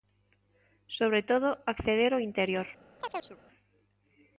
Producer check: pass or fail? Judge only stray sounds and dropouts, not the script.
fail